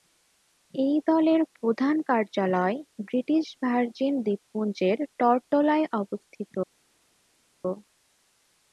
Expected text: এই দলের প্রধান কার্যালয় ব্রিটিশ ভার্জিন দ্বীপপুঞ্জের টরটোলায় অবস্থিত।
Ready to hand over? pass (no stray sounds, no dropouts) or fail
pass